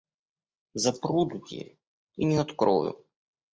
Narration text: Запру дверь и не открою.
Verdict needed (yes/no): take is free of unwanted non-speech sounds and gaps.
yes